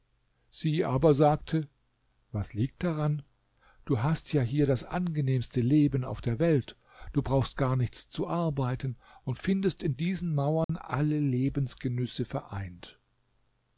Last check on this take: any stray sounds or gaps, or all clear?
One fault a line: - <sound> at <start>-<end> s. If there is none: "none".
- dropout at 10.6-10.7 s